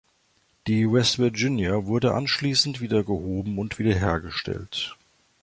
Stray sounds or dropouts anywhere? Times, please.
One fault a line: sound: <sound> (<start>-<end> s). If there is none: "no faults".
no faults